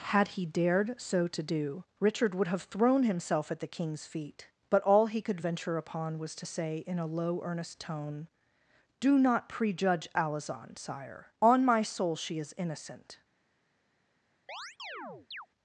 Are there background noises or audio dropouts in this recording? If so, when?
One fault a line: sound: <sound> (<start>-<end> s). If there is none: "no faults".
sound: chirp (14.5-15.5 s)